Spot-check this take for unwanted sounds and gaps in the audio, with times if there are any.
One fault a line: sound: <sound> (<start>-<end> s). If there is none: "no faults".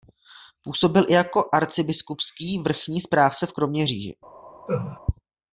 sound: laugh (4.7-5.0 s)